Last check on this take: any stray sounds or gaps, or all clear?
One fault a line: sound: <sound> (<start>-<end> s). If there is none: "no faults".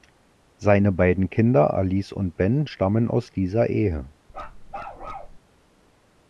sound: bark (4.3-5.4 s)